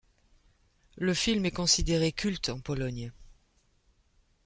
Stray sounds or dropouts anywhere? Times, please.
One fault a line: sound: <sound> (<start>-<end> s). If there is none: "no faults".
no faults